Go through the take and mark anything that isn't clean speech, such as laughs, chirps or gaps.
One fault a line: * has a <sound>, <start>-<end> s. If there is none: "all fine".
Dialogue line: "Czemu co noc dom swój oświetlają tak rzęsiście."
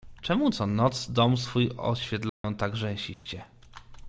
* has a dropout, 2.3-2.4 s
* has a dropout, 3.1-3.3 s